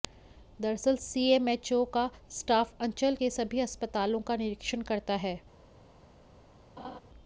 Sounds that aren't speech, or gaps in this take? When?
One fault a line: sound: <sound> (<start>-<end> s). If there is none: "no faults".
sound: laugh (6.8-7.0 s)